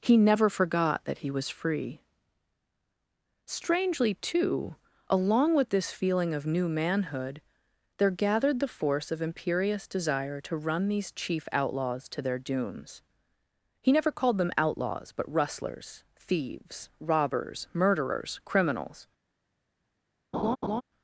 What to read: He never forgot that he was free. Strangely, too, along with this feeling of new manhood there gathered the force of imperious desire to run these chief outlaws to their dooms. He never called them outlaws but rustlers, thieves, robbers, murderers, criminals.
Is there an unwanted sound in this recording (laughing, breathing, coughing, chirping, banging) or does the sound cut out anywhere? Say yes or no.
yes